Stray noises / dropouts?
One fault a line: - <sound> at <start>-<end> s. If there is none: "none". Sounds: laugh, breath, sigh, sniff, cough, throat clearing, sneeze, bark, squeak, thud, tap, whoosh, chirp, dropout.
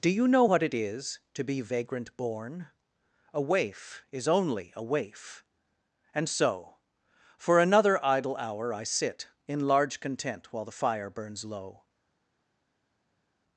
none